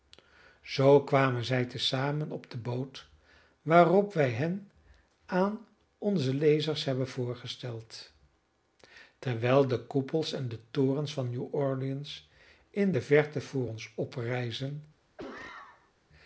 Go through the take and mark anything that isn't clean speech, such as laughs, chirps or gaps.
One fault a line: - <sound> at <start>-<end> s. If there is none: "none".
- cough at 15.2-15.9 s